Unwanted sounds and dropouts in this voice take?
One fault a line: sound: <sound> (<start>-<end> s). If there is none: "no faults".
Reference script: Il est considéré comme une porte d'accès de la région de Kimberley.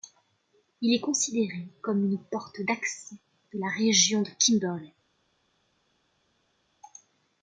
no faults